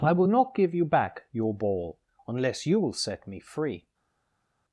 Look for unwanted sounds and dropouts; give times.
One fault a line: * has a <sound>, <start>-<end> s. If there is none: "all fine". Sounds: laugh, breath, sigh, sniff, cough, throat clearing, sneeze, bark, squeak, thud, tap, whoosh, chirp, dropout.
all fine